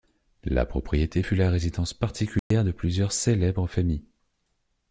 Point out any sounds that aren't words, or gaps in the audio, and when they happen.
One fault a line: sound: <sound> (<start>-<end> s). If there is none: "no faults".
sound: dropout (2.4-2.5 s)